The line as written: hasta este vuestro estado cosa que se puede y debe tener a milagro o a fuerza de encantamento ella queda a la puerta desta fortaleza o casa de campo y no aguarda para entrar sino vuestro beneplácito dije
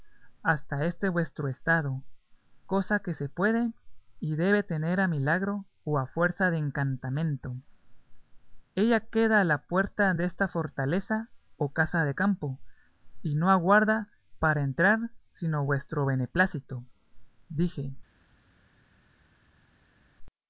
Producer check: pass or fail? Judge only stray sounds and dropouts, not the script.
pass